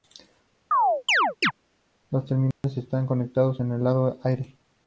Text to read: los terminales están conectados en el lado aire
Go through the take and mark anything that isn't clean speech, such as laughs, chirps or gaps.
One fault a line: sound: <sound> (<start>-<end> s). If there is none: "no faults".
sound: chirp (0.7-1.5 s)
sound: dropout (2.5-2.6 s)